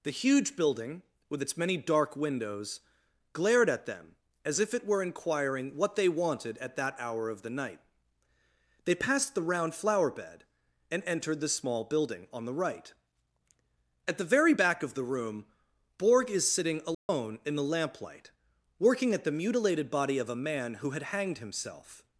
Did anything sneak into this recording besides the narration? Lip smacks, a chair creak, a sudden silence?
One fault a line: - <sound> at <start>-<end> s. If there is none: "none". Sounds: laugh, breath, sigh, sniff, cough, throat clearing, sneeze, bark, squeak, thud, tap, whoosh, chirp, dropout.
- dropout at 16.9-17.1 s